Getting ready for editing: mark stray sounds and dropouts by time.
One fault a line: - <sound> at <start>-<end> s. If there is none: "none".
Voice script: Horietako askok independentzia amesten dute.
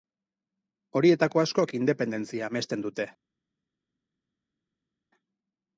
none